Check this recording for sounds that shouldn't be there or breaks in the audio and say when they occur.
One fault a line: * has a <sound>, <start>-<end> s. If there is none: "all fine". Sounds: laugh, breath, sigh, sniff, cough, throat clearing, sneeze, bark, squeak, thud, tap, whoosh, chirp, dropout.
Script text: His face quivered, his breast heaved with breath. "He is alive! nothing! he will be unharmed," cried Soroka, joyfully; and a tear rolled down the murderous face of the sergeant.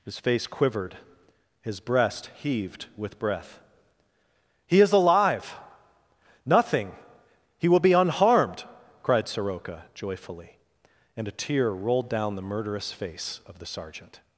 all fine